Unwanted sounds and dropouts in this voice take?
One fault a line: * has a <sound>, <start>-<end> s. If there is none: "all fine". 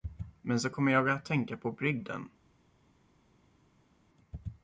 all fine